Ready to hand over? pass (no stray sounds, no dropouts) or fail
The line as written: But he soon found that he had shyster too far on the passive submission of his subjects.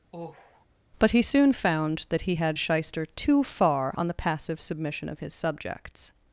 fail